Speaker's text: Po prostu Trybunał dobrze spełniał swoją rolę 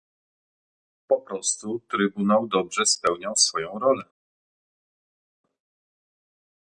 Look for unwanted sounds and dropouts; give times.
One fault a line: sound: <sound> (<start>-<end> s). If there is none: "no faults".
no faults